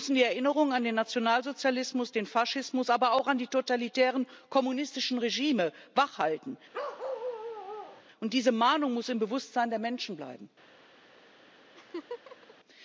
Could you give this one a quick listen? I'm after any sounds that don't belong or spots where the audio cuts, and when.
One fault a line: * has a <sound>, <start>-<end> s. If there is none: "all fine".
* has a bark, 6.7-8.0 s
* has a laugh, 11.7-12.5 s